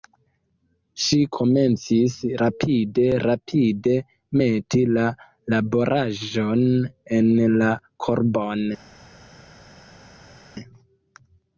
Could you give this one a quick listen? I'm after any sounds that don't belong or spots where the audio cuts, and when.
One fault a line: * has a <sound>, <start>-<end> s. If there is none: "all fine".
all fine